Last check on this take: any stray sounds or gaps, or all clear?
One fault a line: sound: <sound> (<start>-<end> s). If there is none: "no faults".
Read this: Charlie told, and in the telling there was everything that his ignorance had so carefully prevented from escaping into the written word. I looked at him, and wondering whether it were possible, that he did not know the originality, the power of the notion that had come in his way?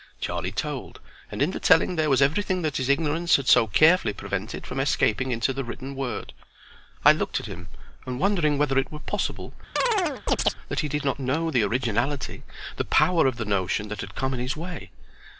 sound: chirp (9.8-10.5 s)